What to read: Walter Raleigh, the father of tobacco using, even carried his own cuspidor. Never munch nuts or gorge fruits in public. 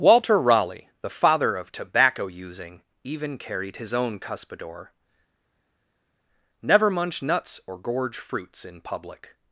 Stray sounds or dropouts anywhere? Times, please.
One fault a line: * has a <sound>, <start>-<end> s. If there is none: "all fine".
all fine